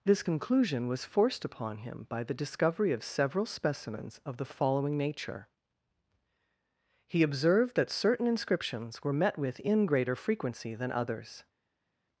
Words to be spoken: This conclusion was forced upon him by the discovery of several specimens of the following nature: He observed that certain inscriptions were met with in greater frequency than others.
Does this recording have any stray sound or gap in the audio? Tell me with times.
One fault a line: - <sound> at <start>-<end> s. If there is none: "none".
none